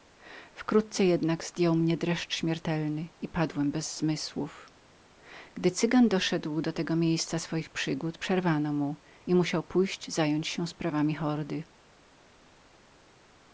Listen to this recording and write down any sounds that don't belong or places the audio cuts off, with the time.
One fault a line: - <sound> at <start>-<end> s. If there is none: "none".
none